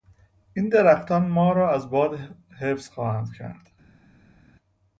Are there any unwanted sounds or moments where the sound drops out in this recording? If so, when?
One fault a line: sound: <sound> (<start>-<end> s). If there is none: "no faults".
no faults